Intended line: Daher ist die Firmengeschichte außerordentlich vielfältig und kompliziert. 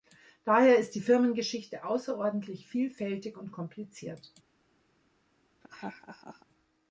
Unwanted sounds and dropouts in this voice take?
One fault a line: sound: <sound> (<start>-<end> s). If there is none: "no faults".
sound: laugh (5.6-6.5 s)